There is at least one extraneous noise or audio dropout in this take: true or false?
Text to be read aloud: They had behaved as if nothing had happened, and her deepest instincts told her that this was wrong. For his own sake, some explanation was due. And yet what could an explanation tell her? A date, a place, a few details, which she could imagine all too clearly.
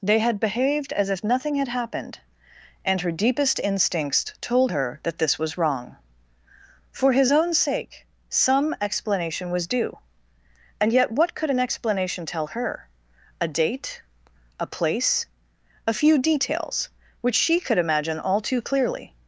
false